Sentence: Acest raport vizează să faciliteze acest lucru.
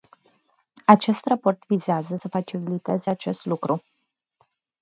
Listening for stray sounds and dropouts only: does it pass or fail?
pass